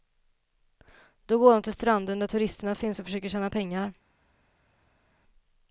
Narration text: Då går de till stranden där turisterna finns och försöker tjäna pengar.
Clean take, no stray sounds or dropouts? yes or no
yes